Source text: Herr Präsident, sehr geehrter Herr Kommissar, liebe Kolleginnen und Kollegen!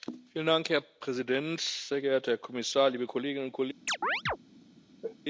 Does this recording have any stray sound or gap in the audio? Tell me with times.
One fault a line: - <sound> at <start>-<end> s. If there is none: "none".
- chirp at 3.9-4.4 s
- sneeze at 5.0-5.2 s